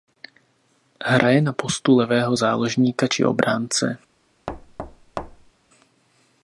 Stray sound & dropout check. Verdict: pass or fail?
fail